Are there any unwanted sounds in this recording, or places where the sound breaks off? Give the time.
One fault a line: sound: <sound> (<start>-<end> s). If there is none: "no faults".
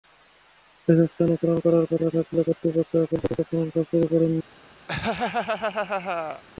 sound: laugh (4.9-6.4 s)